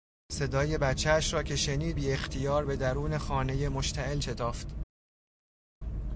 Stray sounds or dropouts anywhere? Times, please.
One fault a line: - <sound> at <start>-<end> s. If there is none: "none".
none